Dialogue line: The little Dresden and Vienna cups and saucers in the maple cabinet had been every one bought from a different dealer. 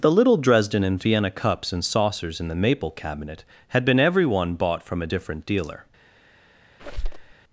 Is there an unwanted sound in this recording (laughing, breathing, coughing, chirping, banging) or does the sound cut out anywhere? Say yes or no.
yes